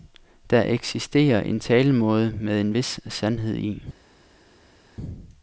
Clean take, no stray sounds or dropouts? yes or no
yes